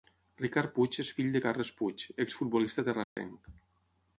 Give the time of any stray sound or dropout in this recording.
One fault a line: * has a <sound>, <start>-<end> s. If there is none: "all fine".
* has a dropout, 3.0-3.2 s